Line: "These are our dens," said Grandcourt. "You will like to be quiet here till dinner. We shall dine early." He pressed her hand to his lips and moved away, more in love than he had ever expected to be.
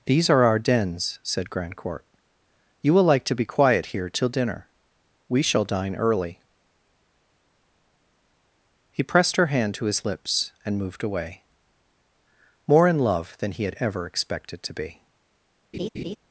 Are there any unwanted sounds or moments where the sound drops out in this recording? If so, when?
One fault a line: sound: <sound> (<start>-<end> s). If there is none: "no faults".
sound: laugh (15.7-16.2 s)